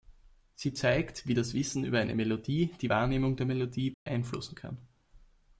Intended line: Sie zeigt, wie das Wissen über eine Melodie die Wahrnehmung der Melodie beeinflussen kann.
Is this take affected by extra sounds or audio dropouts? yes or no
yes